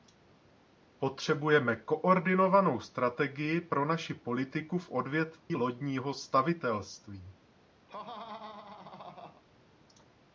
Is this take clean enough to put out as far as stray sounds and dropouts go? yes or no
no